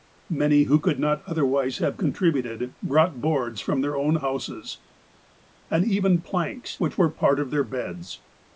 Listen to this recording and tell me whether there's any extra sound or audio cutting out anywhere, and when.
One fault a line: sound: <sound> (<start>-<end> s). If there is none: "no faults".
no faults